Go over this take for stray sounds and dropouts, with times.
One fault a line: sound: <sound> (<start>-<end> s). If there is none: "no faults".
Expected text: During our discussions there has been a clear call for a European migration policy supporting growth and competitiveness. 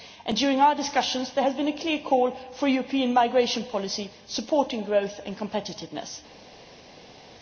no faults